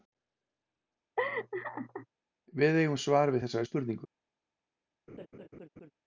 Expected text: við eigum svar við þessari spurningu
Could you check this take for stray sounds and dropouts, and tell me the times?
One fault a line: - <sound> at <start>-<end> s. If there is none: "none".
- laugh at 1.2-2.1 s
- laugh at 5.1-5.9 s